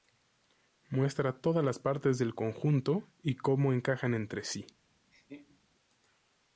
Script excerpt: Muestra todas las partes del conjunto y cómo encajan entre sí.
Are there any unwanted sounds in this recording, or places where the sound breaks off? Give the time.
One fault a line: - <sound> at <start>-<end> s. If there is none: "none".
- laugh at 5.1-5.6 s